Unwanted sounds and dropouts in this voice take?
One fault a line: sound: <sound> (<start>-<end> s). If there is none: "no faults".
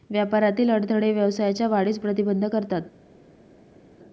no faults